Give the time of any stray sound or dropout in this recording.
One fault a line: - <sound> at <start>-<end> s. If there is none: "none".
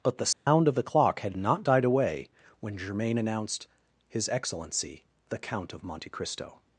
- dropout at 0.3-0.5 s